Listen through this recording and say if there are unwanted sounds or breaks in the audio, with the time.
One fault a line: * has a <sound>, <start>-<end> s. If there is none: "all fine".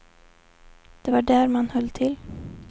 all fine